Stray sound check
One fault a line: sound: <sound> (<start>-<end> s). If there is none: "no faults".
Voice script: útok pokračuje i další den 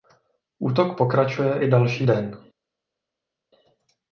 no faults